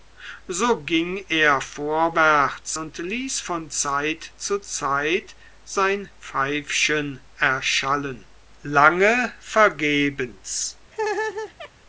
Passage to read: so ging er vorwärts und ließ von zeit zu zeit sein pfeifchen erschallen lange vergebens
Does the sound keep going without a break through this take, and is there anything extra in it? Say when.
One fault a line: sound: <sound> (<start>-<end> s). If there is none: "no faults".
sound: laugh (10.9-11.7 s)